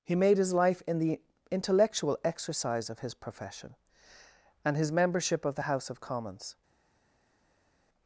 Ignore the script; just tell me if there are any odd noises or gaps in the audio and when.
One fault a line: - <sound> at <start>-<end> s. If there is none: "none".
none